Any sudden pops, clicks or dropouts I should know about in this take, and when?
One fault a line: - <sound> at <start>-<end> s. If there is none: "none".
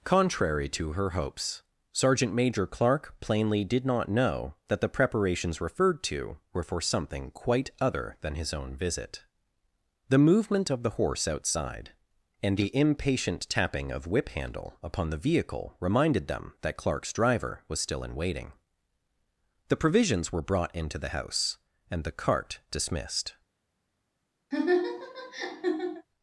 - laugh at 24.5-26.1 s